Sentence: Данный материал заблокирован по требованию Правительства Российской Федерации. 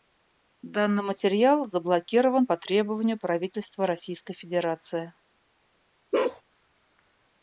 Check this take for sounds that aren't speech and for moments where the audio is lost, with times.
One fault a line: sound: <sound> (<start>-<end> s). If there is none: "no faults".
sound: bark (6.1-6.4 s)